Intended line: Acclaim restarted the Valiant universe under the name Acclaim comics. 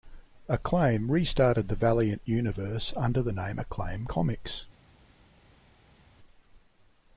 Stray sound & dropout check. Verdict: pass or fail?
pass